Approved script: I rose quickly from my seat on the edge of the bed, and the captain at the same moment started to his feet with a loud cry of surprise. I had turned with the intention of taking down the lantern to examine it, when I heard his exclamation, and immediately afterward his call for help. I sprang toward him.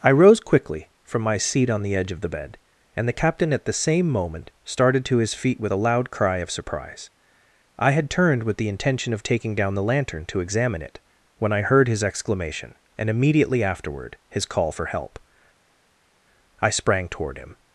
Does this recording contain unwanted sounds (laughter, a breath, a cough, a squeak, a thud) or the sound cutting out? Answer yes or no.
no